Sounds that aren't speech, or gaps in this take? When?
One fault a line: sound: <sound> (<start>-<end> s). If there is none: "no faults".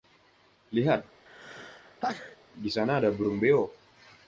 sound: sneeze (1.3-2.4 s)